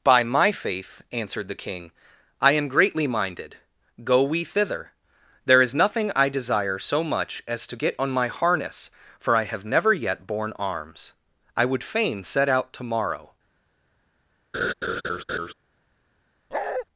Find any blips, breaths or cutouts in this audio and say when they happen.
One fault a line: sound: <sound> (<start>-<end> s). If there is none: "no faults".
sound: laugh (14.5-15.5 s)
sound: bark (16.5-16.9 s)